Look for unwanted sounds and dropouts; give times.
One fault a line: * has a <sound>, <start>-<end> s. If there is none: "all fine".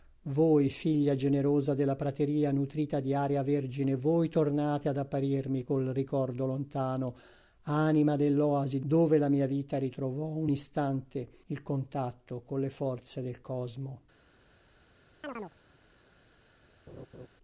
* has a chirp, 15.2-15.5 s
* has a laugh, 16.9-17.3 s